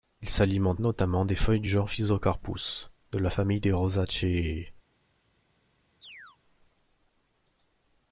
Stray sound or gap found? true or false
true